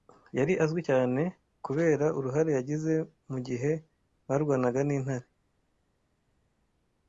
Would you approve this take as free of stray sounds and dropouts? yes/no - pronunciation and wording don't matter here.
yes